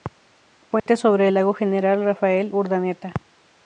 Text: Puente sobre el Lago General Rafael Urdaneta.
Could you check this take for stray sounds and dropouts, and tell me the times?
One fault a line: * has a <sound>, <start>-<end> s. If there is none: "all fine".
* has a dropout, 0.8-0.9 s